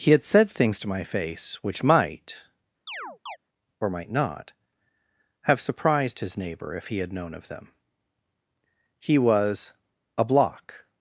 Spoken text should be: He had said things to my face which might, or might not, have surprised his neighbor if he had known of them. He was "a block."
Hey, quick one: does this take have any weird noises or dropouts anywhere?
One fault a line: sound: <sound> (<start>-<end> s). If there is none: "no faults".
sound: chirp (2.9-3.4 s)